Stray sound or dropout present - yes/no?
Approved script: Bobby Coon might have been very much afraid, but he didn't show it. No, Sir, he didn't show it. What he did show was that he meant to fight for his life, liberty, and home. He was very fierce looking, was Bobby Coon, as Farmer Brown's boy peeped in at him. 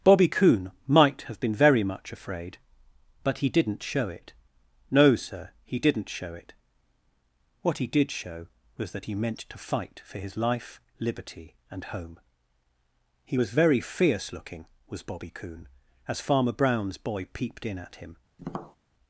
yes